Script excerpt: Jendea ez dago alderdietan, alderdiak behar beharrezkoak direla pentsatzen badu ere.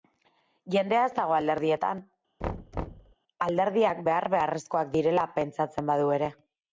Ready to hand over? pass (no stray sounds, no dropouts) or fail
fail